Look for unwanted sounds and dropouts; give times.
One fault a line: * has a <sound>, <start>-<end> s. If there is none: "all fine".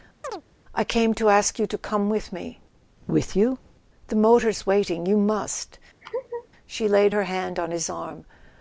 * has a chirp, 0.2-0.4 s
* has a laugh, 6.0-6.5 s